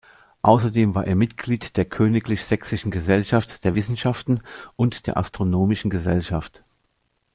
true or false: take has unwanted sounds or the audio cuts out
false